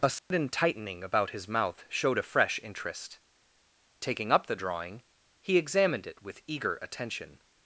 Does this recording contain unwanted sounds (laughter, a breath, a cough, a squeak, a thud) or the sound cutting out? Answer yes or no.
yes